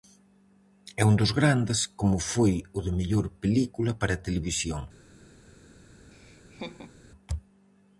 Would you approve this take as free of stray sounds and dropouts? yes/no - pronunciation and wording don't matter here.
no